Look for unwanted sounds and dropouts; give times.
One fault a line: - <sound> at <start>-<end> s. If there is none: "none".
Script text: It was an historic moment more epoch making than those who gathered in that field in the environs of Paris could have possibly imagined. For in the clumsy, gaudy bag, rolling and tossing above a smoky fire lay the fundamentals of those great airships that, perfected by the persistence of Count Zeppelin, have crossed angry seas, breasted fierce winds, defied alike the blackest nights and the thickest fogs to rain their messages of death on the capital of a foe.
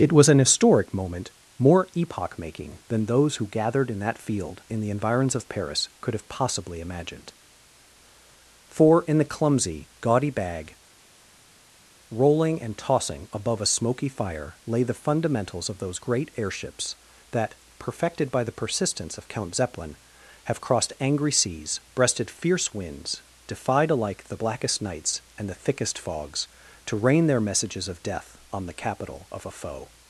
none